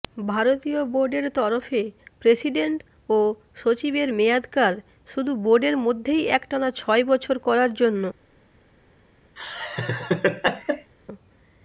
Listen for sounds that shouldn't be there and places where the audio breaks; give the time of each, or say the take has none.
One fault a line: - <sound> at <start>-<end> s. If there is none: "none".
- laugh at 9.4-10.9 s